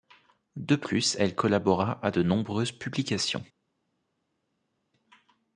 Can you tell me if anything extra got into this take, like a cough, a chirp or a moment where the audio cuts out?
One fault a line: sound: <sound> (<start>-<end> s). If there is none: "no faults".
no faults